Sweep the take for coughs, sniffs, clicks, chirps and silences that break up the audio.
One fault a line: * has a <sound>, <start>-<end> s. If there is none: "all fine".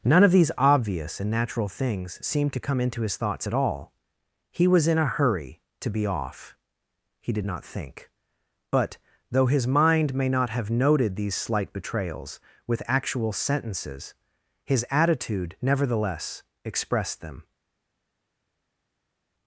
all fine